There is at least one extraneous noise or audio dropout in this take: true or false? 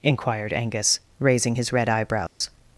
true